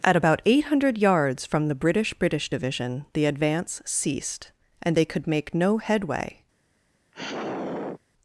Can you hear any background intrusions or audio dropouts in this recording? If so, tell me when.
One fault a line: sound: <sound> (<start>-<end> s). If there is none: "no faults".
sound: sigh (7.1-8.0 s)